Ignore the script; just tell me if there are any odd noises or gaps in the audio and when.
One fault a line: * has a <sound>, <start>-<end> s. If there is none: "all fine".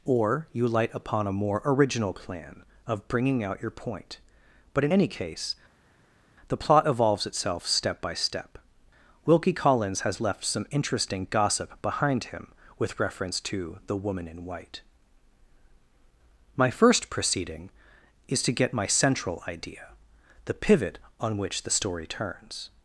all fine